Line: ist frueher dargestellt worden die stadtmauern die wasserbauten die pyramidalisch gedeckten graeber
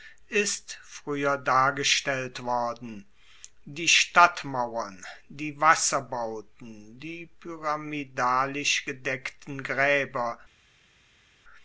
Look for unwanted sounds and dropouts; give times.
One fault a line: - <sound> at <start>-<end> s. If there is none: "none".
none